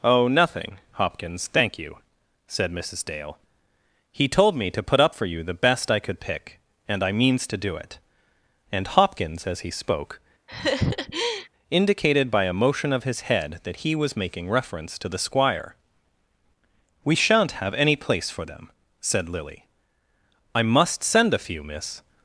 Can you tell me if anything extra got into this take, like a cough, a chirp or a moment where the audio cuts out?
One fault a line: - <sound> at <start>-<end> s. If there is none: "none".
- laugh at 10.5-11.5 s